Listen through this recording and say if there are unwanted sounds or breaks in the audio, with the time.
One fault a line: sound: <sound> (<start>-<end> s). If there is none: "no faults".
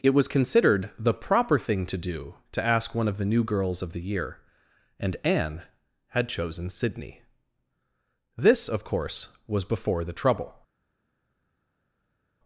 no faults